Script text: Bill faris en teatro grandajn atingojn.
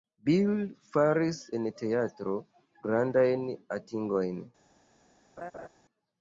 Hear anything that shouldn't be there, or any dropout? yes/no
yes